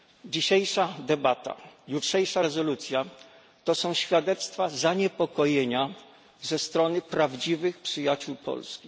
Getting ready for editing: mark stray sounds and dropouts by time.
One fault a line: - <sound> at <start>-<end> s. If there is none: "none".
none